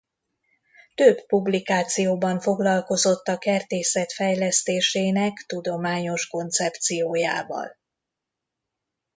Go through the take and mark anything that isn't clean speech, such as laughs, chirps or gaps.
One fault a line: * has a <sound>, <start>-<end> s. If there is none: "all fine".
all fine